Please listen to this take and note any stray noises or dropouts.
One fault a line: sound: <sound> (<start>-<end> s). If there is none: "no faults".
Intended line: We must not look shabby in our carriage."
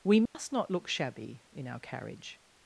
sound: dropout (0.3-0.3 s)